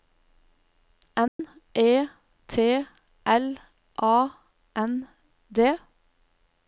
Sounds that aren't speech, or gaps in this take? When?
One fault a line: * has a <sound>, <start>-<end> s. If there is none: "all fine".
* has a dropout, 1.3-1.4 s